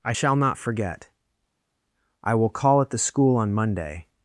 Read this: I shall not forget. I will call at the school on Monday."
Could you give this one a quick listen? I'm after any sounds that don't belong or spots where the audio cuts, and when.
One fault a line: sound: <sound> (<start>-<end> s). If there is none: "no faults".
no faults